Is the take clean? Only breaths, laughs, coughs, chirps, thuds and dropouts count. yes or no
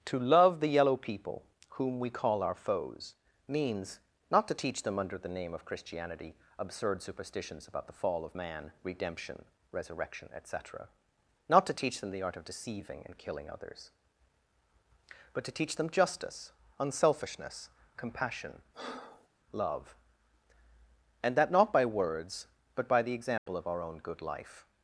no